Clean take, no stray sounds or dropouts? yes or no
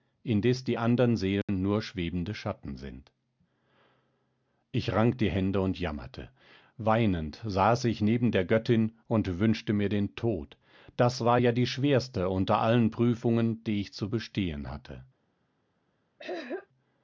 no